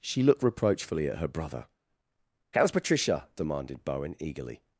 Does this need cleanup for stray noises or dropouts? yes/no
no